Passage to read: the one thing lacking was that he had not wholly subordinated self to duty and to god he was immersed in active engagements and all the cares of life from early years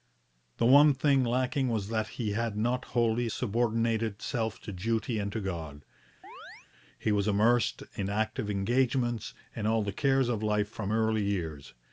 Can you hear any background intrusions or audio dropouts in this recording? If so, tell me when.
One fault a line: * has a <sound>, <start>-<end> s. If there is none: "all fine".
* has a chirp, 6.2-6.7 s